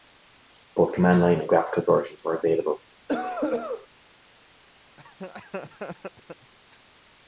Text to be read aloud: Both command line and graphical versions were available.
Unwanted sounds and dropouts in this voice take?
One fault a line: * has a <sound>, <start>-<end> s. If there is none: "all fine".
* has a cough, 3.1-3.9 s
* has a laugh, 5.0-6.5 s